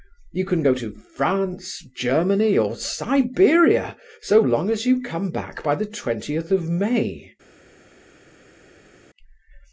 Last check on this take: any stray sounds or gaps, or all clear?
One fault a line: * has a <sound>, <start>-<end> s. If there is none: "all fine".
all fine